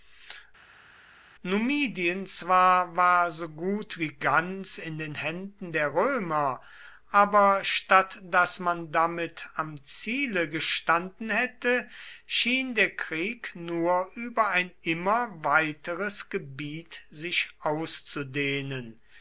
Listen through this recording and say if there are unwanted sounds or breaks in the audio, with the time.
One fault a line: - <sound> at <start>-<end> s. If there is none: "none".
none